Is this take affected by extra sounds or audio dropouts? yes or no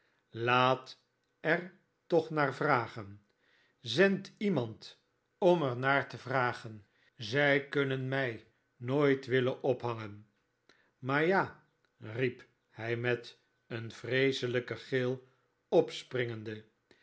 no